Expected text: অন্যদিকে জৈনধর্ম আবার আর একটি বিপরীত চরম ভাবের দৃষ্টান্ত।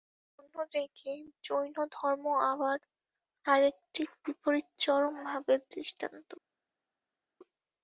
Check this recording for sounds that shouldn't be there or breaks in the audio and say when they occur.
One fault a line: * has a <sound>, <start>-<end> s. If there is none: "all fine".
all fine